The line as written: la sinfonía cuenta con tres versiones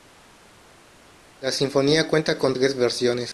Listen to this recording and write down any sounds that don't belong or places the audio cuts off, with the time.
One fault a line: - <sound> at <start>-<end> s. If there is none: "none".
none